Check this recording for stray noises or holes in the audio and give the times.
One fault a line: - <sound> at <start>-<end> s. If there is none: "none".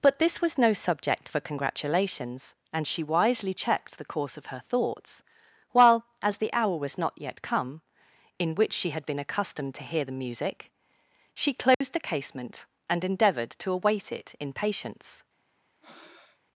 - dropout at 11.7-11.8 s
- breath at 15.8-16.4 s